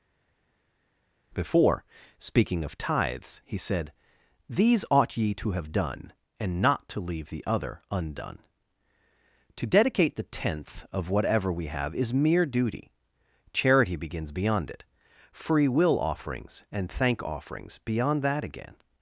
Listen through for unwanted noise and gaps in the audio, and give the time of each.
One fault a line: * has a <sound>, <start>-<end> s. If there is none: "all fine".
all fine